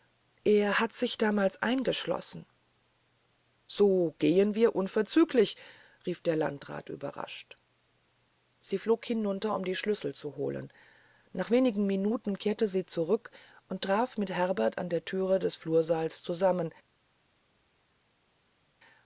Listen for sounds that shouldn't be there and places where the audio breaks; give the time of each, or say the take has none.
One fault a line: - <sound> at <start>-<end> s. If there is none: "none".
none